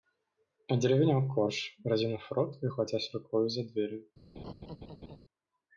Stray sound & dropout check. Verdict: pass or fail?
fail